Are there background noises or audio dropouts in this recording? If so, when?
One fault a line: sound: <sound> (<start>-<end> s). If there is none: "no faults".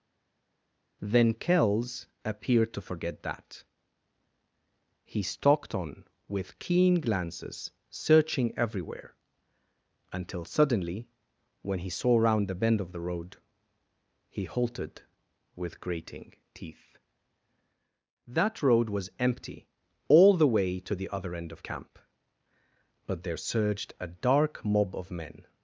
no faults